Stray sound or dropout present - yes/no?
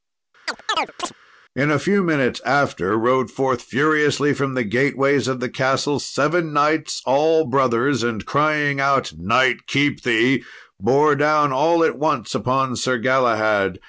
yes